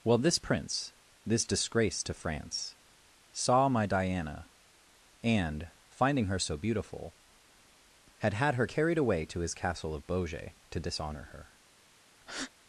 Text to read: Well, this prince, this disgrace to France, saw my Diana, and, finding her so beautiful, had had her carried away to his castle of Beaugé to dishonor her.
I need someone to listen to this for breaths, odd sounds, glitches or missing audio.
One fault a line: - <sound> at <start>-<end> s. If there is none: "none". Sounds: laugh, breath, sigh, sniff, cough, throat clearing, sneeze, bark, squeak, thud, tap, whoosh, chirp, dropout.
- breath at 12.2-12.5 s